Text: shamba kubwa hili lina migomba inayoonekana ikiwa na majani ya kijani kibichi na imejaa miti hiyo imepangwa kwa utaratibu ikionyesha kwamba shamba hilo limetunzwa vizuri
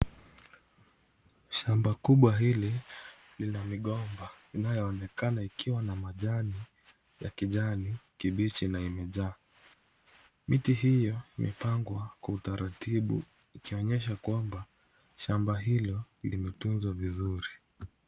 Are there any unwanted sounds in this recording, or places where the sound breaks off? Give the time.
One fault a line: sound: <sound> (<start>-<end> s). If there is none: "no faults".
no faults